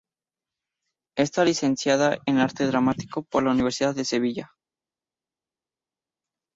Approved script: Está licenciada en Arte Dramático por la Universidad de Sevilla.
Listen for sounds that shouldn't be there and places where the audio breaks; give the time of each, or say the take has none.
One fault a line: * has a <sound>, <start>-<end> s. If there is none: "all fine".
all fine